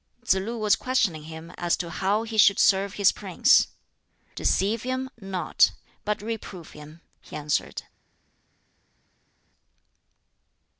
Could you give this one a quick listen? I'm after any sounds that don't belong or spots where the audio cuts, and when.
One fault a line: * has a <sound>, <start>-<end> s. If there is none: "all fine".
all fine